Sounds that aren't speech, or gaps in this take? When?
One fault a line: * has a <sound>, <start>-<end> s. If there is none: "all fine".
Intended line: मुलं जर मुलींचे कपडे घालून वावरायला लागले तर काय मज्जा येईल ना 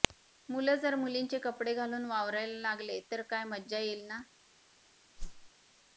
* has a whoosh, 5.2-5.5 s